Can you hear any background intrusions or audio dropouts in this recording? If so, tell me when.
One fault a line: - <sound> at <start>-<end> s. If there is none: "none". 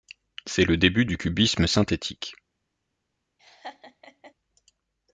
- laugh at 3.4-4.3 s